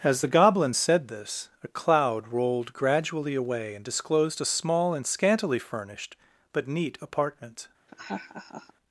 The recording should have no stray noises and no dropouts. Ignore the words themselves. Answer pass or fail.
fail